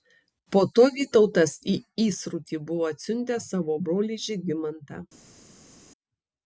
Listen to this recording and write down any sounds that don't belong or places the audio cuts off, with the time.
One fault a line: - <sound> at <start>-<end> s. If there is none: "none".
none